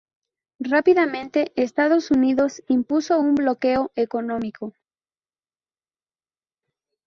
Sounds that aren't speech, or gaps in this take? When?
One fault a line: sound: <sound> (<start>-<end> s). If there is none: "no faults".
no faults